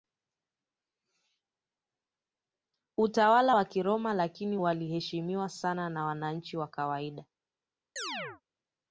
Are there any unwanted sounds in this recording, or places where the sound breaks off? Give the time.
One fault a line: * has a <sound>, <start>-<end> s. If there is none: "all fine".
* has a chirp, 8.0-8.4 s